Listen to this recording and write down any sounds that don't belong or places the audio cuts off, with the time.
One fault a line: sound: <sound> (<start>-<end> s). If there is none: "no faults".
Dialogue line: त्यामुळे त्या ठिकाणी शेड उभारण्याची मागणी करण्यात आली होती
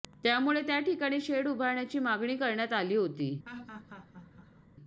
sound: laugh (3.4-4.7 s)